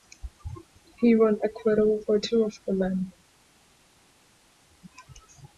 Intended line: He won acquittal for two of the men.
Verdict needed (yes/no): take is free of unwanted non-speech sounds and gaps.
yes